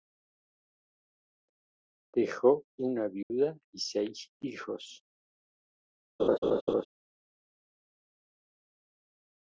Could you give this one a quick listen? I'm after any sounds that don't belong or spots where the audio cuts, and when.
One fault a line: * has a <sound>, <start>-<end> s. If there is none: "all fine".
* has a dropout, 3.2-3.3 s
* has a laugh, 6.2-6.9 s